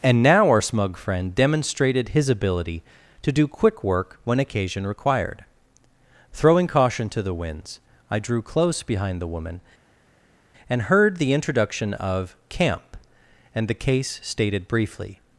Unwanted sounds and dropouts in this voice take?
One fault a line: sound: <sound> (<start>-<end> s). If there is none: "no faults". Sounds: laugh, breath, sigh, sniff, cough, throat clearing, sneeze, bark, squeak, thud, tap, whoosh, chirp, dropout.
no faults